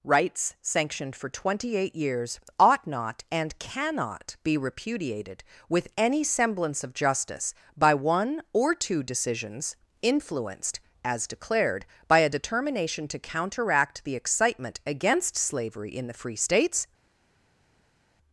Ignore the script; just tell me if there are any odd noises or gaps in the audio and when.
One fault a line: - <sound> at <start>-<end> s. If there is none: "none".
none